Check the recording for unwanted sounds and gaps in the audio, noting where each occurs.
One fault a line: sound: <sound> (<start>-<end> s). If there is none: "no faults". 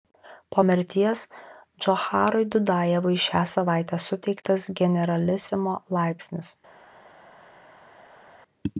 no faults